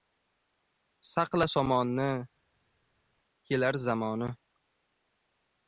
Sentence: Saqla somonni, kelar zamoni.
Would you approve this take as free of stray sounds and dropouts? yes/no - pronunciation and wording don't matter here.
yes